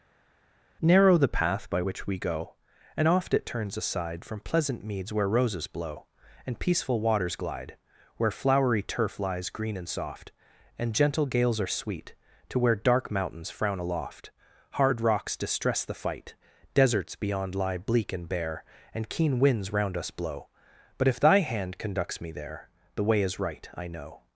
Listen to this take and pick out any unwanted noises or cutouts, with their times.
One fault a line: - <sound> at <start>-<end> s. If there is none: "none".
none